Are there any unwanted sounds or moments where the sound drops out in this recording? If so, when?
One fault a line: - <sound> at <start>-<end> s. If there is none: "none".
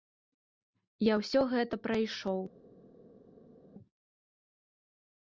none